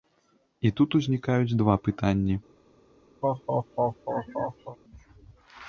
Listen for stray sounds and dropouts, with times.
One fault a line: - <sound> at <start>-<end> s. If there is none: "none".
- laugh at 3.2-4.8 s